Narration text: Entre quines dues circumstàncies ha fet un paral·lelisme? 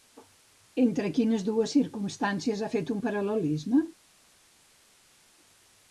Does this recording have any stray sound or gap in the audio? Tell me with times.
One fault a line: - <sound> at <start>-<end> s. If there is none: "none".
none